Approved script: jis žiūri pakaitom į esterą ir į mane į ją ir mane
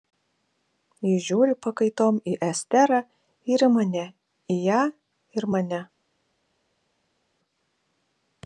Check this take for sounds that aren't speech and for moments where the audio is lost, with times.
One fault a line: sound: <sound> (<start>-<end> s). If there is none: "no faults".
no faults